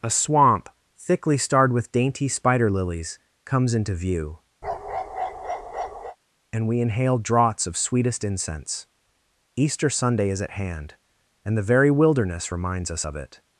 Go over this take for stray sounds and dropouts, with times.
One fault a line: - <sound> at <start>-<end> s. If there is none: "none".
- bark at 4.6-6.2 s